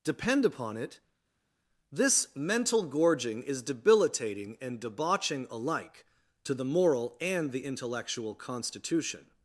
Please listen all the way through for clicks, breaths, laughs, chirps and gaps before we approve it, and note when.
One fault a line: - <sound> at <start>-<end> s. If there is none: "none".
none